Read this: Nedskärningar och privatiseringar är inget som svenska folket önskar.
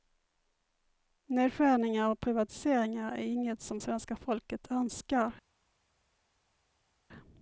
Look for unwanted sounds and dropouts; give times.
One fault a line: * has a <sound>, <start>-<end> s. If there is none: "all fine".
all fine